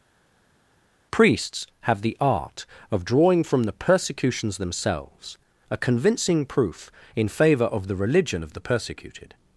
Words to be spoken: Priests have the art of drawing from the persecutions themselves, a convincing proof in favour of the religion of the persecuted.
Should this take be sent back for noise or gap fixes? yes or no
no